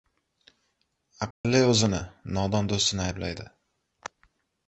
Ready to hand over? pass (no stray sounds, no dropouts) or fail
fail